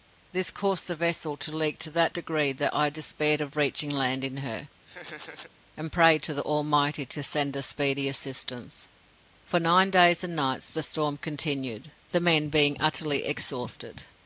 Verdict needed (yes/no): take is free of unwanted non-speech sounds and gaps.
no